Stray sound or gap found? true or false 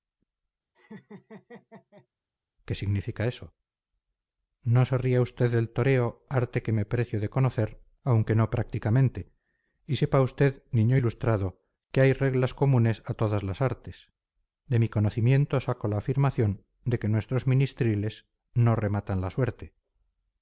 true